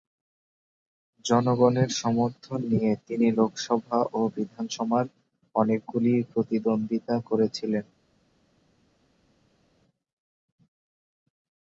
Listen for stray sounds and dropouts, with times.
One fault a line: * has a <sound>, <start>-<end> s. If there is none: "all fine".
all fine